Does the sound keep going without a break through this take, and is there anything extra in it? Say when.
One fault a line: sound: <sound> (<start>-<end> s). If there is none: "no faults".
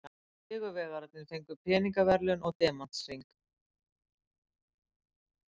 no faults